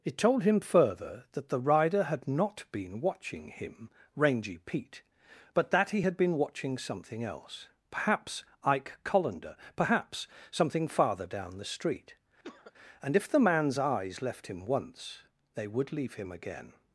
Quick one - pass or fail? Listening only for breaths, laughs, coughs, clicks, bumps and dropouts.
fail